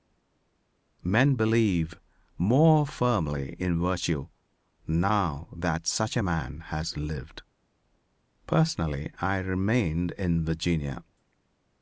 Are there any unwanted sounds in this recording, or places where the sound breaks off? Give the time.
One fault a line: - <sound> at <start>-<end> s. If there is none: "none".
none